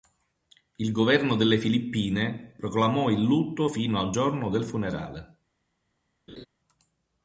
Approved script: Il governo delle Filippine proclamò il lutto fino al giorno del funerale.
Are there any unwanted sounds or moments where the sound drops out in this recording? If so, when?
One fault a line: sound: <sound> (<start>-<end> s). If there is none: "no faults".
sound: laugh (6.3-6.5 s)